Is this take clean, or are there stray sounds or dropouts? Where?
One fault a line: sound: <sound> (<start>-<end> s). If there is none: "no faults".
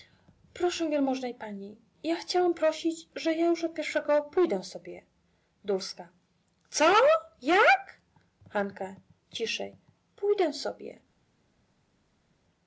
no faults